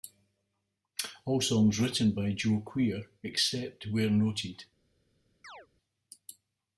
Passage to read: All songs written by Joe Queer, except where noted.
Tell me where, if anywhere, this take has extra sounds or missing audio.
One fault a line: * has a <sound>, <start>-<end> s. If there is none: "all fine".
* has a chirp, 5.4-5.7 s